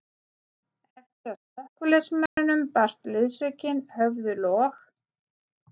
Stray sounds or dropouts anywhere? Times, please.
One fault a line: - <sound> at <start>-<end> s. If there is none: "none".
- dropout at 2.3-2.4 s